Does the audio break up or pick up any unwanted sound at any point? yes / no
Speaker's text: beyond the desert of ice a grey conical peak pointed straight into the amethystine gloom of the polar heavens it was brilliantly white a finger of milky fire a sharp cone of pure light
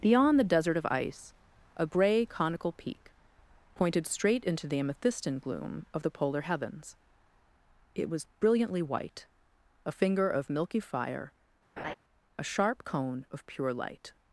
yes